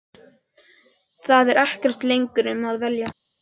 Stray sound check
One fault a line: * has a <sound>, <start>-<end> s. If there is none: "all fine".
all fine